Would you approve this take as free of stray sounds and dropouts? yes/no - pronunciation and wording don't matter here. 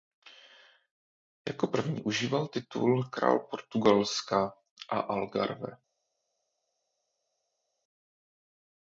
yes